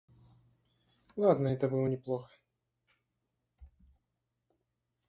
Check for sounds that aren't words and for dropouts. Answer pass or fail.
pass